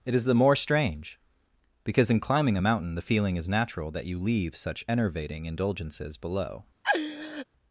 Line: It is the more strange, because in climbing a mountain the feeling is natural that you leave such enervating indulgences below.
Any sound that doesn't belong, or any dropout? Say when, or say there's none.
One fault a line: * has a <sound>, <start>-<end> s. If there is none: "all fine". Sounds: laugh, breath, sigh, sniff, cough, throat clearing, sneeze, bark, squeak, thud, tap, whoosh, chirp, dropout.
* has a laugh, 6.8-7.5 s